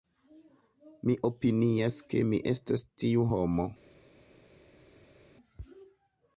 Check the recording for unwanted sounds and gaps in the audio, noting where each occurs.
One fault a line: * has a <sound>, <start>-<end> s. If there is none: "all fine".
all fine